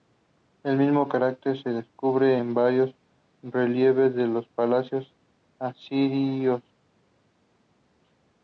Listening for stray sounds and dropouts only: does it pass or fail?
pass